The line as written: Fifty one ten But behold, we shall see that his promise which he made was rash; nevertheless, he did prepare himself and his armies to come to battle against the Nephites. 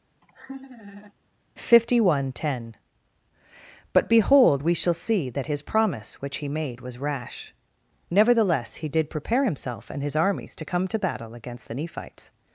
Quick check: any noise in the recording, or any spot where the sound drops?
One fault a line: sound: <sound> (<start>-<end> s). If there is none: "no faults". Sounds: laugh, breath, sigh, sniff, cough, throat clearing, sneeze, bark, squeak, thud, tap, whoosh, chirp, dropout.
sound: laugh (0.2-1.1 s)